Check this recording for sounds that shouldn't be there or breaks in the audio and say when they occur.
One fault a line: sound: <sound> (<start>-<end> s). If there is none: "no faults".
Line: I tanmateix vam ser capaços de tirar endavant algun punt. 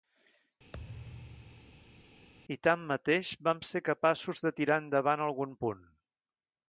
sound: thud (0.7-2.3 s)